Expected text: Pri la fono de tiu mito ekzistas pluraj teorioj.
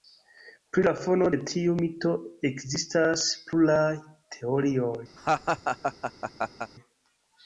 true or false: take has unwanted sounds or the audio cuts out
true